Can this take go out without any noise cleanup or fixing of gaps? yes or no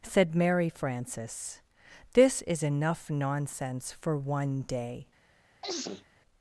no